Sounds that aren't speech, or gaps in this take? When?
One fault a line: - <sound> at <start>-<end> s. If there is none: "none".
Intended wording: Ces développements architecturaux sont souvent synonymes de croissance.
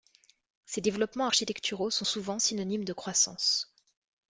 none